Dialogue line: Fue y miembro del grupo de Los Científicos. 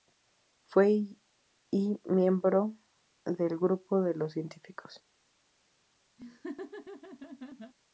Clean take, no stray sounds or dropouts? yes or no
no